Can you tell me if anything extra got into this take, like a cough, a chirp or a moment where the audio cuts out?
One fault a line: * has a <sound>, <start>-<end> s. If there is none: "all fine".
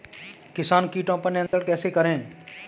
* has a dropout, 1.5-1.5 s